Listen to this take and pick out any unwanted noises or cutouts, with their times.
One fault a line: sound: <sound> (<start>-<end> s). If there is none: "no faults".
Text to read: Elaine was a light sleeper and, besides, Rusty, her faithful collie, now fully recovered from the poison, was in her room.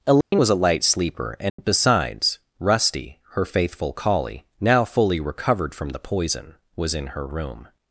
sound: dropout (0.2-0.3 s)
sound: dropout (1.5-1.6 s)